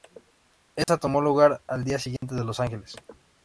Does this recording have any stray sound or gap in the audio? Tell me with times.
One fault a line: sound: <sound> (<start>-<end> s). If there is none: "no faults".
sound: dropout (0.8-0.9 s)
sound: dropout (2.2-2.2 s)